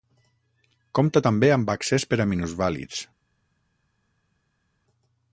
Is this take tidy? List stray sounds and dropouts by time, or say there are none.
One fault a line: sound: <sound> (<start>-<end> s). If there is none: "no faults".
no faults